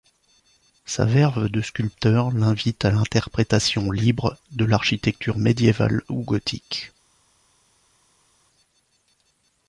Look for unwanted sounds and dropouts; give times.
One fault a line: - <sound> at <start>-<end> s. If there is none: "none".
none